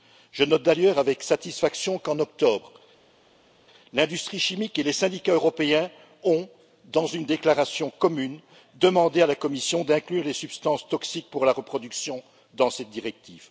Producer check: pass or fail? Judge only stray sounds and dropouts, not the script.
pass